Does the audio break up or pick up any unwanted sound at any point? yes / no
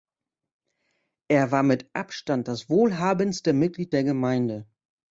no